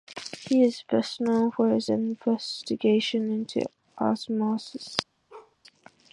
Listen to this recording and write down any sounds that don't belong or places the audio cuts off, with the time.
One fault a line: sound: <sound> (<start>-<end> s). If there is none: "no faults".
sound: bark (5.3-5.6 s)